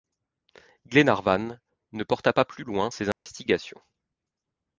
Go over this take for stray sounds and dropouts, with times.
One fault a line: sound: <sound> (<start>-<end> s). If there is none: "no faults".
sound: dropout (3.1-3.3 s)